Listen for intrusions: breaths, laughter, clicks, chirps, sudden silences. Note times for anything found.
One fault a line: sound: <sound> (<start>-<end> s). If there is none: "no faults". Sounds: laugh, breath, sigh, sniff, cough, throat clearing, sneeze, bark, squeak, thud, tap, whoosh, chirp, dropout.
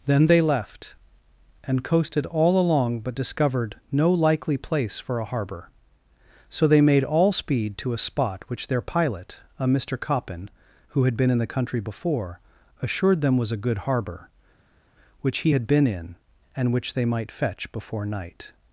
no faults